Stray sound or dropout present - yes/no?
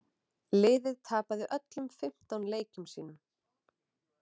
no